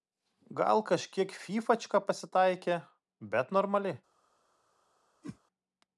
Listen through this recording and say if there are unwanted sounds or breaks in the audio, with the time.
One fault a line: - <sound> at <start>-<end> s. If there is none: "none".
- whoosh at 5.2-5.4 s